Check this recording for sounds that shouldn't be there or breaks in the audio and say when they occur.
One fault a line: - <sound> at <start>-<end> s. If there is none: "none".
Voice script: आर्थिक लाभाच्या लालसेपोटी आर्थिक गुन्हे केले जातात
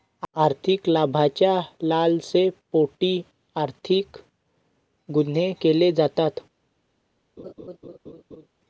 - laugh at 7.4-8.5 s